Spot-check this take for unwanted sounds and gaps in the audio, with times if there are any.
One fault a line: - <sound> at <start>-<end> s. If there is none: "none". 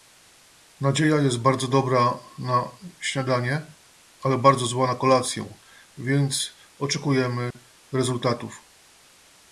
- dropout at 7.5-7.5 s